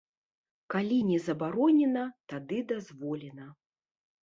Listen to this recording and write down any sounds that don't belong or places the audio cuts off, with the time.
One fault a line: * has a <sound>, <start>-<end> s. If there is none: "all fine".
all fine